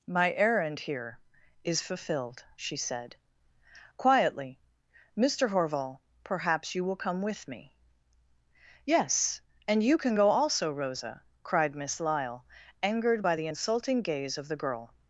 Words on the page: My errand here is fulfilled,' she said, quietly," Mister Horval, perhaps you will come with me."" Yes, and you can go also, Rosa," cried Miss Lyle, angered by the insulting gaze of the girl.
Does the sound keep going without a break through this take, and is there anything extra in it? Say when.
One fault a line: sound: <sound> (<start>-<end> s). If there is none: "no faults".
no faults